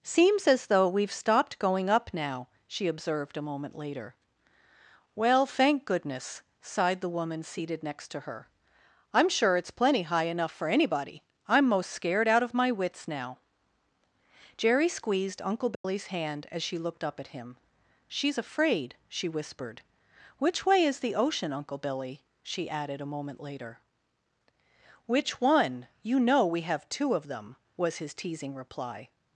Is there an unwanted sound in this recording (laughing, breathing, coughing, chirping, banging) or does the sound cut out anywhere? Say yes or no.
yes